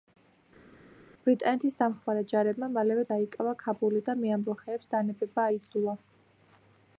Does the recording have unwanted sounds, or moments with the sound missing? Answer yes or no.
no